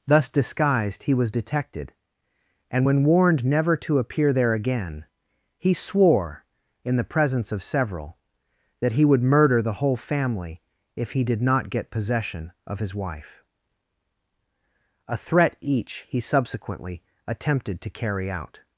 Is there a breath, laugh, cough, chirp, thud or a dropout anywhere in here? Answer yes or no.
no